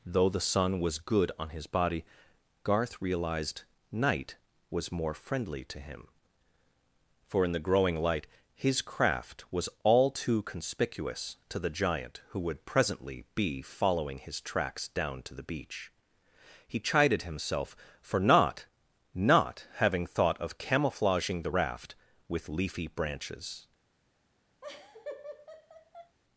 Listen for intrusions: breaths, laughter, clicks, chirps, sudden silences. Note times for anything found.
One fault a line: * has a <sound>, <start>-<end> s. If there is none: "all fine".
* has a laugh, 24.6-26.2 s